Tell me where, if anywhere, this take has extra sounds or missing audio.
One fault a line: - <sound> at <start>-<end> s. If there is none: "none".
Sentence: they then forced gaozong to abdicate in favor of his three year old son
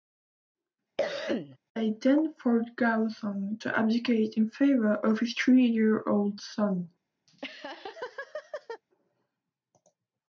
- cough at 1.0-1.6 s
- laugh at 7.3-8.8 s